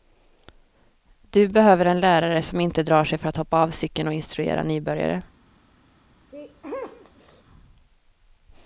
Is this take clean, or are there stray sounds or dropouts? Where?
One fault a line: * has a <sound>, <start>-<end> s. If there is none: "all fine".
* has a sneeze, 6.3-7.4 s